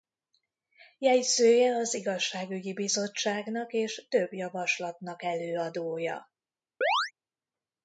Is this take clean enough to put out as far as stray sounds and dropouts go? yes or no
no